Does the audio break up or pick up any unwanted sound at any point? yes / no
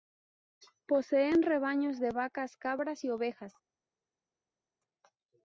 no